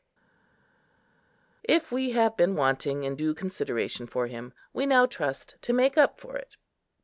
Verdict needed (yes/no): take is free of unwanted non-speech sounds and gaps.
yes